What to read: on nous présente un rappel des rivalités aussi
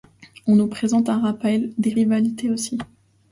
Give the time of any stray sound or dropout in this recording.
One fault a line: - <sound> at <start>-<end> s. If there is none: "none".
none